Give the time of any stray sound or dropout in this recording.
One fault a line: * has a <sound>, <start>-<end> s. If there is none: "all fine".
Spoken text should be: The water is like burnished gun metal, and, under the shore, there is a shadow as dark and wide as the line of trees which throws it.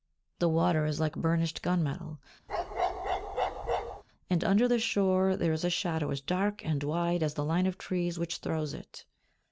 * has a bark, 2.5-4.0 s